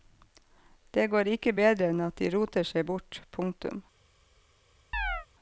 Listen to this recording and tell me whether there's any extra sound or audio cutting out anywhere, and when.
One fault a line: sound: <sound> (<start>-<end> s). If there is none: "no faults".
sound: chirp (4.9-5.3 s)